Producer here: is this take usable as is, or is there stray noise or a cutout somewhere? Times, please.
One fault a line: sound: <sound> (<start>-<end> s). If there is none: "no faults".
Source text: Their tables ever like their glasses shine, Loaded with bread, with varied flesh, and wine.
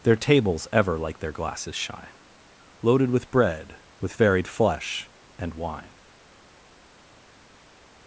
no faults